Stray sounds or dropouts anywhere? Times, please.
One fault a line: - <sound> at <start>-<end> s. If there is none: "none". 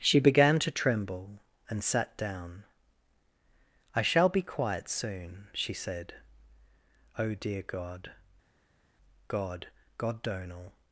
none